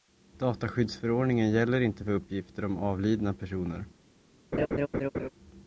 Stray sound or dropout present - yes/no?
yes